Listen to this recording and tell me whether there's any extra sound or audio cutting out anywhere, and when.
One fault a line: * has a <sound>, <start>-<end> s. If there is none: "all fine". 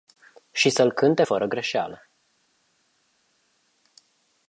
all fine